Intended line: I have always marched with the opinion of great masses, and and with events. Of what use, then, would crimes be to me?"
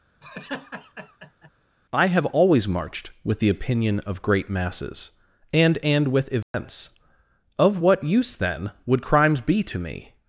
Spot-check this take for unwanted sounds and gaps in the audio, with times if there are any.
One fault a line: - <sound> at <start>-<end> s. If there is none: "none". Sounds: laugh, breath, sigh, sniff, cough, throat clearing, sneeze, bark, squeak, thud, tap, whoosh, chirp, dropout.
- laugh at 0.2-1.5 s
- dropout at 6.4-6.5 s